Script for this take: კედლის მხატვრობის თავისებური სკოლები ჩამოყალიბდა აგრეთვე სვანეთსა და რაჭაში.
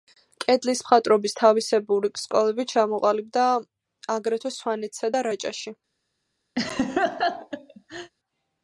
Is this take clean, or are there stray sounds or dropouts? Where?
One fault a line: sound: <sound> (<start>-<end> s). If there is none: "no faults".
sound: laugh (6.6-8.1 s)